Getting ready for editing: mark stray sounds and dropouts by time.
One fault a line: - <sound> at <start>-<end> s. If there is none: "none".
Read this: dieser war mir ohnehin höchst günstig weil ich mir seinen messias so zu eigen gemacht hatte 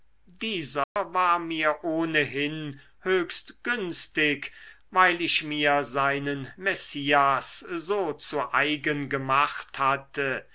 - dropout at 0.8-1.0 s